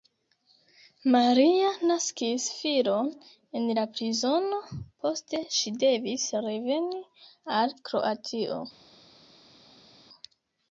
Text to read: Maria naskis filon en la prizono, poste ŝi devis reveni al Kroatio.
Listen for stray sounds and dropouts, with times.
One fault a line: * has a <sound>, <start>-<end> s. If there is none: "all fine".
all fine